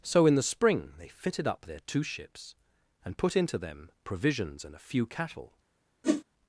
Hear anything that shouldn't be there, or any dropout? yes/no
yes